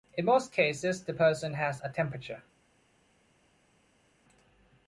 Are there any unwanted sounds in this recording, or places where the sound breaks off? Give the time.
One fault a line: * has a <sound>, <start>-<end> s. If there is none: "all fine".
all fine